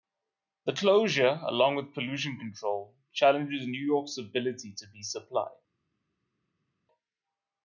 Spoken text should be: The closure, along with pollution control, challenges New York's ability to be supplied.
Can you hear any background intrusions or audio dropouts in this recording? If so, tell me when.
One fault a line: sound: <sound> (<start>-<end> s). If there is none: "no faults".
no faults